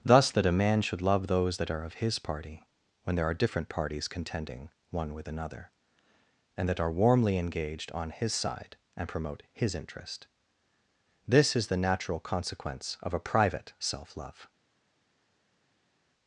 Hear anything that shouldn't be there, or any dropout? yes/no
no